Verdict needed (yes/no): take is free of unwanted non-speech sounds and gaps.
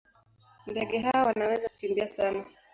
yes